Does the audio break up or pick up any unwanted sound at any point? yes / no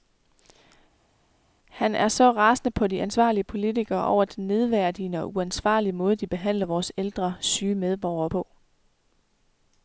no